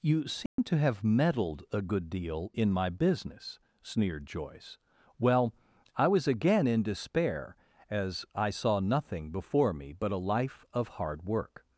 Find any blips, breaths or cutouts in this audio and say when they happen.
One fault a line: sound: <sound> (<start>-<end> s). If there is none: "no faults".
sound: dropout (0.5-0.6 s)